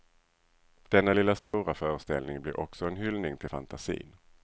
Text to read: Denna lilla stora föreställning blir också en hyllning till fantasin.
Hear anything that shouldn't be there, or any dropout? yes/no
yes